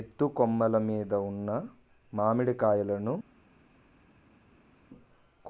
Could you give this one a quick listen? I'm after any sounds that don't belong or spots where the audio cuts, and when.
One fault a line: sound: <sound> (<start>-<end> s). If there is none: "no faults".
no faults